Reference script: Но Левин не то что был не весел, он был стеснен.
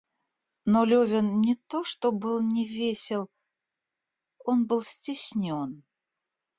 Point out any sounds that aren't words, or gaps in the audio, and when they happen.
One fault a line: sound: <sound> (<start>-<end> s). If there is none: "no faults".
no faults